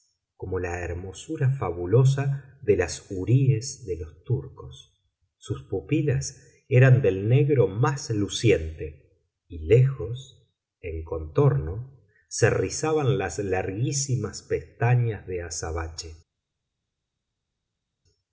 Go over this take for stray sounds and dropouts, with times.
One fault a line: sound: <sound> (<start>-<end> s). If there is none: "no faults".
no faults